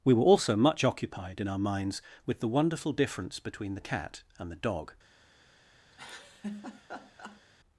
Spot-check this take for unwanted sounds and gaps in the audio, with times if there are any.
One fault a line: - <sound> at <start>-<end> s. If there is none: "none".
- laugh at 5.9-7.4 s